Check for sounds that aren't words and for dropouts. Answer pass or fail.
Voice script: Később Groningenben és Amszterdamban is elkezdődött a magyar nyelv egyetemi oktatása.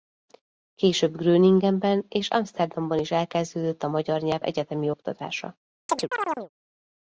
fail